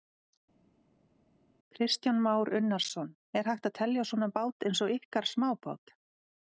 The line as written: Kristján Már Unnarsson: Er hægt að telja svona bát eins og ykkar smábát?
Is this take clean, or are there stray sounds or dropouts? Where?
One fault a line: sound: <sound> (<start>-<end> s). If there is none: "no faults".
no faults